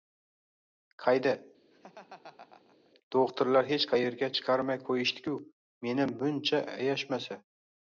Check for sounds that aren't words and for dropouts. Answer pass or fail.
fail